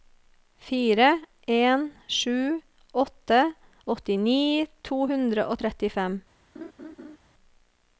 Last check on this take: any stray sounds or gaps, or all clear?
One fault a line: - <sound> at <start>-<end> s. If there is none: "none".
- laugh at 6.5-7.2 s